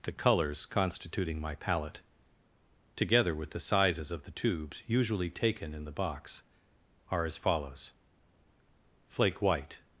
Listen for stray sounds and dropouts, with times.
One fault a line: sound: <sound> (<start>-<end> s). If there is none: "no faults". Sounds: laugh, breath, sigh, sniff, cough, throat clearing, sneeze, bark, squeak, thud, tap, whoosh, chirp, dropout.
no faults